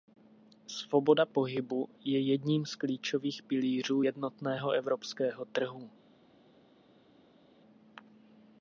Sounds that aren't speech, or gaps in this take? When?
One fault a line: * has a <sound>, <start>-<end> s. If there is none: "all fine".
all fine